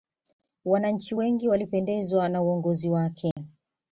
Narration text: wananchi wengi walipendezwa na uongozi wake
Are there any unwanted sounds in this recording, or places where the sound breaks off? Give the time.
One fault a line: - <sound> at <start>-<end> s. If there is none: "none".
- dropout at 3.3-3.4 s